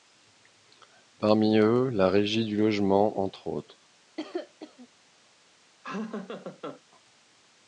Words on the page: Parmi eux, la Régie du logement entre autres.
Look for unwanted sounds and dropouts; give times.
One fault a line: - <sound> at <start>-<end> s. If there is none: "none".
- cough at 4.2-4.9 s
- laugh at 5.8-6.8 s